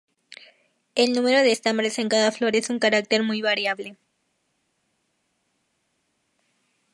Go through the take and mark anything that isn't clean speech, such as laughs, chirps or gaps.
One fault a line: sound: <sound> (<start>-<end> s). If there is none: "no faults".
no faults